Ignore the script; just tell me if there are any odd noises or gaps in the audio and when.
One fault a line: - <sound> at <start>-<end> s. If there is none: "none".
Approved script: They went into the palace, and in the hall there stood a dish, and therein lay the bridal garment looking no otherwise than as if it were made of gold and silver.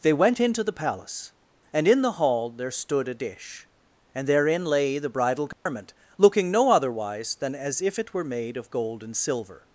- dropout at 5.5-5.7 s